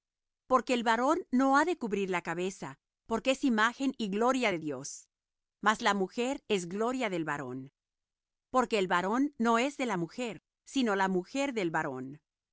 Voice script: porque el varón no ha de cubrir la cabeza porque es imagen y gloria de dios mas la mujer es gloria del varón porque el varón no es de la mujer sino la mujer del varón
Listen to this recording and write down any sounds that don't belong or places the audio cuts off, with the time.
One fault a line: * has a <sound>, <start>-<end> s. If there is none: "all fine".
all fine